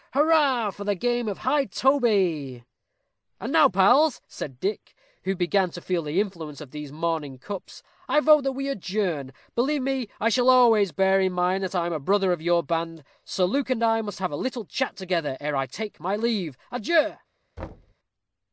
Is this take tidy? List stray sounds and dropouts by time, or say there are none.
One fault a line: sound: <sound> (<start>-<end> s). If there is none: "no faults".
sound: thud (17.6-17.9 s)